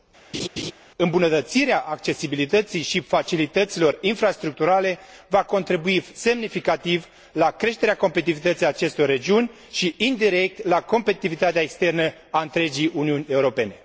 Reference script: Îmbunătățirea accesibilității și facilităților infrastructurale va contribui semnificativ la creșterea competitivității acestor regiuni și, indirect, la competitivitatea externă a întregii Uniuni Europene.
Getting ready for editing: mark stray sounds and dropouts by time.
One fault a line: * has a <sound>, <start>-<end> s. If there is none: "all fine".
* has a laugh, 0.3-0.7 s